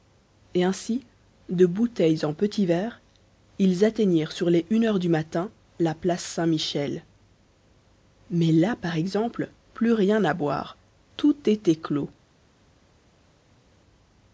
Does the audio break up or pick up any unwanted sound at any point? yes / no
no